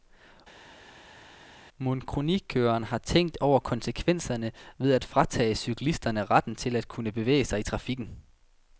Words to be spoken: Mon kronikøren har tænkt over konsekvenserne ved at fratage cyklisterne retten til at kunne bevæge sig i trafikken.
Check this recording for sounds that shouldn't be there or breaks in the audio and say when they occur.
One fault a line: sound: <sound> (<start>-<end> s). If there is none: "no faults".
no faults